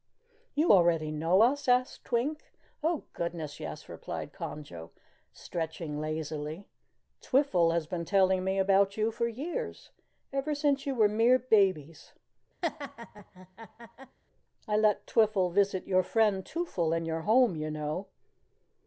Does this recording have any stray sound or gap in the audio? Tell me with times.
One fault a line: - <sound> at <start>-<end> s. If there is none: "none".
- laugh at 12.6-14.2 s